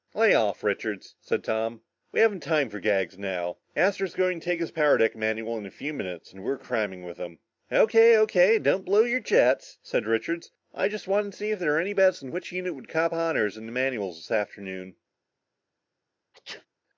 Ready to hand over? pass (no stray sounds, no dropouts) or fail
fail